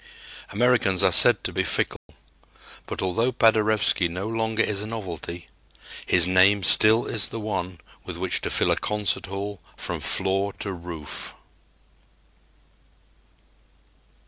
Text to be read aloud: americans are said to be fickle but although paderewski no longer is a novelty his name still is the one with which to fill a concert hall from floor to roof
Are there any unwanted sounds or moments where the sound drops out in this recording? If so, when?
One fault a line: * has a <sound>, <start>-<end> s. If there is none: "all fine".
* has a dropout, 2.0-2.1 s